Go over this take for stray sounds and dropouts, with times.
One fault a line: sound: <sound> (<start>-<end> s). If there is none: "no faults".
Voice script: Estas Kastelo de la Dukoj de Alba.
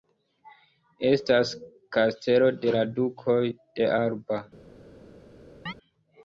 sound: chirp (5.7-5.7 s)